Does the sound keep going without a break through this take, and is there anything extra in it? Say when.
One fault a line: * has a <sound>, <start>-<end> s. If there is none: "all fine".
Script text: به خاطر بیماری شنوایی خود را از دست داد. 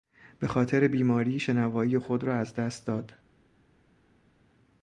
all fine